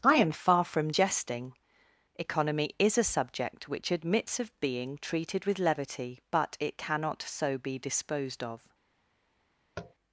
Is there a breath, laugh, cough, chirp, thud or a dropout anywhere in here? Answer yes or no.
yes